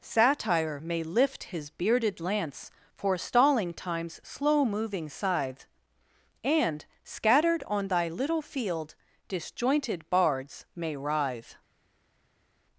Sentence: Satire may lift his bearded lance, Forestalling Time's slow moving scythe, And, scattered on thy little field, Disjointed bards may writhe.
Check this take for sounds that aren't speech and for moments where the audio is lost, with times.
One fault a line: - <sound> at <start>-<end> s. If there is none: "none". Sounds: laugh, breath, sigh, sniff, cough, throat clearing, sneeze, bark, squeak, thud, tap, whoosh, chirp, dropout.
none